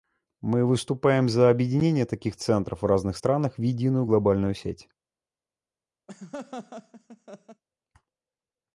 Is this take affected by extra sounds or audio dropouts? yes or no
yes